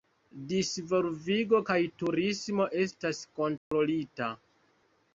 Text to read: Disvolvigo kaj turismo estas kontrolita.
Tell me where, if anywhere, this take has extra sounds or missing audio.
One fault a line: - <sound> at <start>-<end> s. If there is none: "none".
- dropout at 3.6-3.7 s